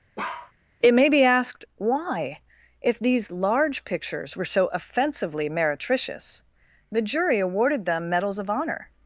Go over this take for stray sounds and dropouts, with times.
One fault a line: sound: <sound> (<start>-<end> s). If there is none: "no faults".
sound: bark (0.2-0.5 s)